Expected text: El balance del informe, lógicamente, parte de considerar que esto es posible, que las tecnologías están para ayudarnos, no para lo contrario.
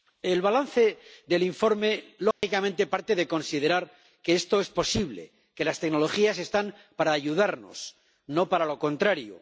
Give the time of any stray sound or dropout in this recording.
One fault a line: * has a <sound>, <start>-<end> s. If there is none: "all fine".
* has a dropout, 2.3-2.4 s